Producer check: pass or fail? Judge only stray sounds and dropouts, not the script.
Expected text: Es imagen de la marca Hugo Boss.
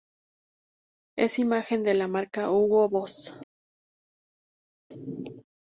pass